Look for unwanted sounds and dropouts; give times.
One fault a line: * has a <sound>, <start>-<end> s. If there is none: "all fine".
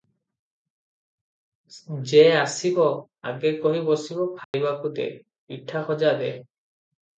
* has a dropout, 4.4-4.5 s